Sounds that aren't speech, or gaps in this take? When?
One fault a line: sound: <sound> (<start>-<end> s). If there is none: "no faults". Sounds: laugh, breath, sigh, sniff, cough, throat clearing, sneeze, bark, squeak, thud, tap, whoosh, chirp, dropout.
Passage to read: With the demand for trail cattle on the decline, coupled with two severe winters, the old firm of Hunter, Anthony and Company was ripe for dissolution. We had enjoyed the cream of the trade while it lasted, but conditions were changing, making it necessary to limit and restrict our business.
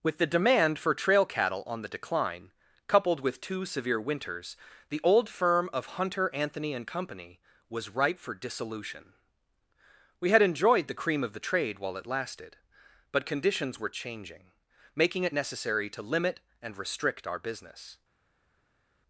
no faults